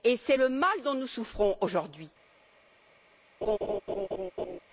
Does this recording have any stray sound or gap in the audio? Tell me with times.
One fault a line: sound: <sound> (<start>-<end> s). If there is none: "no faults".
sound: laugh (3.4-4.6 s)